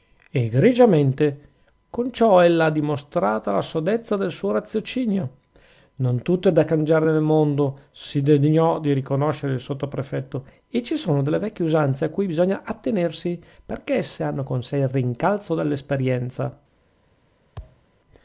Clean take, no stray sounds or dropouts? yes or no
no